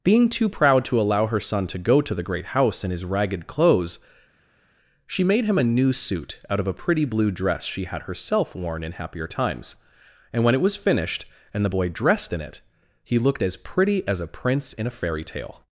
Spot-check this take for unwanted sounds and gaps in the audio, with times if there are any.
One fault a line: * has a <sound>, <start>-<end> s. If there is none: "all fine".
all fine